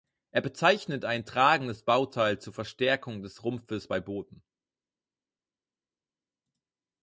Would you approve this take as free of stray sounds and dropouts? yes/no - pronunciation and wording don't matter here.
yes